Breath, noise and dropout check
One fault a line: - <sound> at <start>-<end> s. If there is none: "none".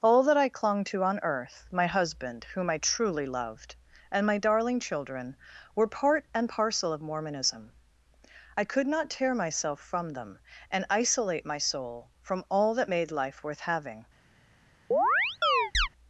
- chirp at 14.9-15.9 s